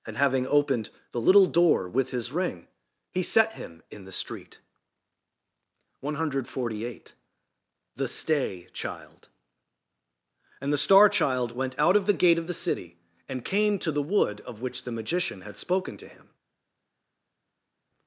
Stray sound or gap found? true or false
false